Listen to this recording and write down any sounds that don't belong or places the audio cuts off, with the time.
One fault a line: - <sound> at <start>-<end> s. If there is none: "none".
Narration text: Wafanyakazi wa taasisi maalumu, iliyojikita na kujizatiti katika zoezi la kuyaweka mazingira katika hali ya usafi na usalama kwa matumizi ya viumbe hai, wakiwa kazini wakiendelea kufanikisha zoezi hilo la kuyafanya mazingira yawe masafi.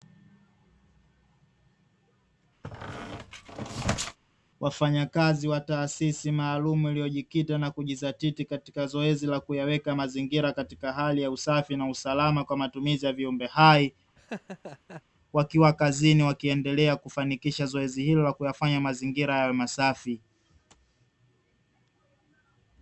- squeak at 2.6-4.2 s
- laugh at 14.2-15.0 s